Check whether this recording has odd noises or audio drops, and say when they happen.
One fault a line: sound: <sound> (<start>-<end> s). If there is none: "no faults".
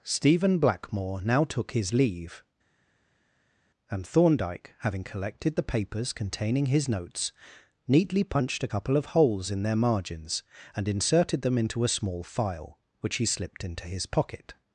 no faults